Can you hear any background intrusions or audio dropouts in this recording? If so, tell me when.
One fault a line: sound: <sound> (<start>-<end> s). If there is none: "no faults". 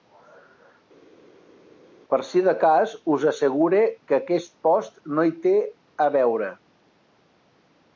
no faults